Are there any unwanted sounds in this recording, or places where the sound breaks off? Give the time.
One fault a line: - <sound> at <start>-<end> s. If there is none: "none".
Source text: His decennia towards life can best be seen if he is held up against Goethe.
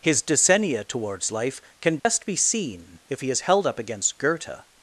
- dropout at 2.0-2.0 s